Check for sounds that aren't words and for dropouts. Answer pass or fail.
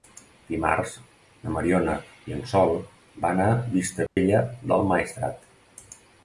fail